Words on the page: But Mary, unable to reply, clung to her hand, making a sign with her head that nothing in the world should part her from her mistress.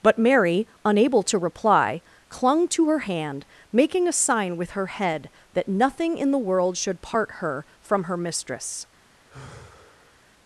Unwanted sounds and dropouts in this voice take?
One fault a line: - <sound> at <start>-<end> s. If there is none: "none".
- sigh at 9.3-10.2 s